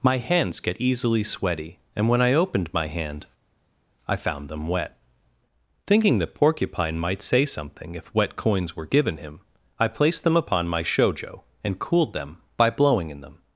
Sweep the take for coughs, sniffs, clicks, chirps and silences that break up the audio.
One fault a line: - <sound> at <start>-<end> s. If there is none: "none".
none